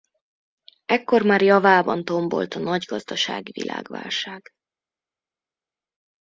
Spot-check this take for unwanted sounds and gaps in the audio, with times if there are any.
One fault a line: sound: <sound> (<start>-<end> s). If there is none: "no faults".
no faults